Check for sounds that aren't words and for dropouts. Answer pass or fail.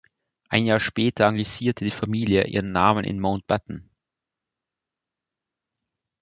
pass